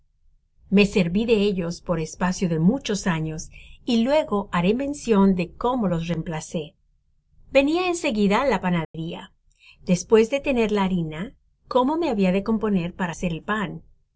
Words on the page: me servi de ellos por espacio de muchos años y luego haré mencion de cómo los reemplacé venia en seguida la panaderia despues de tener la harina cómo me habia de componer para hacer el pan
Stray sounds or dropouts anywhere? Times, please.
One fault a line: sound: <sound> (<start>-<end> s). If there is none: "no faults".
sound: dropout (8.8-8.9 s)